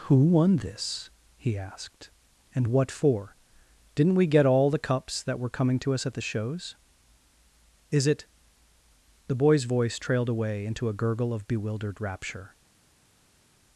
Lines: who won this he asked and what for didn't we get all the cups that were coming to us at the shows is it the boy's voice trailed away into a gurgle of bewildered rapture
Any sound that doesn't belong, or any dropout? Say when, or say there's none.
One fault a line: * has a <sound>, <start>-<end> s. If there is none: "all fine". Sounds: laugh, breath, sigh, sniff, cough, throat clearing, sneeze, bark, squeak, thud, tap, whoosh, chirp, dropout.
all fine